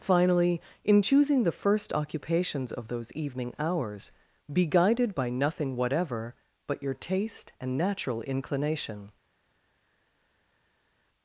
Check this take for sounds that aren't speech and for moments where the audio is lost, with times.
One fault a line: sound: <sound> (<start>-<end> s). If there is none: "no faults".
no faults